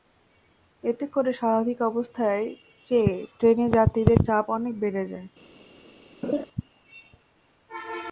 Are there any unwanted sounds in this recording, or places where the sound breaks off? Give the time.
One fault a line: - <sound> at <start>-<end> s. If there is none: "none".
- laugh at 6.2-6.4 s